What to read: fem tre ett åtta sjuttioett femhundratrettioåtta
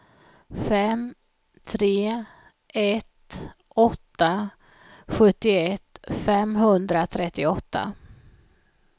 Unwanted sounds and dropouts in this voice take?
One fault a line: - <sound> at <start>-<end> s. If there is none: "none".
none